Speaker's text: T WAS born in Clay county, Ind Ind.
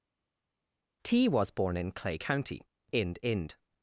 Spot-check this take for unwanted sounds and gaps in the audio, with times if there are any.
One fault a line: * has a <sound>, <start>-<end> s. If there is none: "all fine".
all fine